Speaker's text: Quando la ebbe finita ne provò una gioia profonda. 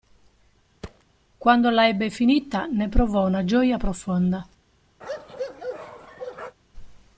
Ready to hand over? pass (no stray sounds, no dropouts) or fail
fail